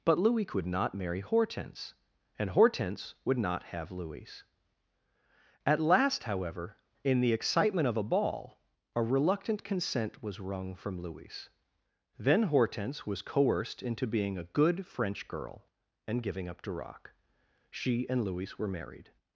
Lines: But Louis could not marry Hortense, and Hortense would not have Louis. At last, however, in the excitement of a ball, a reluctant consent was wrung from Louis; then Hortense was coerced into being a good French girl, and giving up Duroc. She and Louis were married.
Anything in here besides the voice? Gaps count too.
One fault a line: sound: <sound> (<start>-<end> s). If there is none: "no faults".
no faults